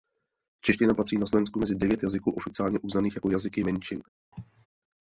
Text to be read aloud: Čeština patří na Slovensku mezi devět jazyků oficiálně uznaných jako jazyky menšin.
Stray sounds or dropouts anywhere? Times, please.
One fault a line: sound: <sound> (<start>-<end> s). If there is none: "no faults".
sound: cough (4.3-4.7 s)